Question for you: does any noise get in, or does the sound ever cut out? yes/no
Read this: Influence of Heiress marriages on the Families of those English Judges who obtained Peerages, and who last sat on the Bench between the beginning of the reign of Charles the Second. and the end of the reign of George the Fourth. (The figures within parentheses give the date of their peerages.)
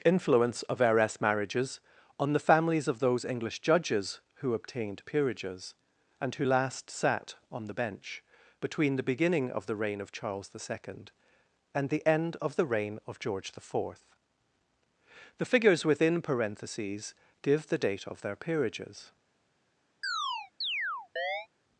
yes